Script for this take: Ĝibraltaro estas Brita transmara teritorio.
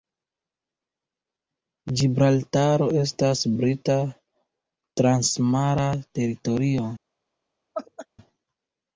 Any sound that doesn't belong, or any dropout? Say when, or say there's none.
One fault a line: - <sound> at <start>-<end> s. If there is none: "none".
- laugh at 7.7-8.1 s